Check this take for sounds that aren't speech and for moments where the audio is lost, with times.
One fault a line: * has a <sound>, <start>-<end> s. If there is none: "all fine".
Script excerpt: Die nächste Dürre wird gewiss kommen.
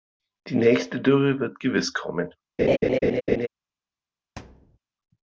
* has a laugh, 2.6-3.5 s
* has a thud, 4.4-4.8 s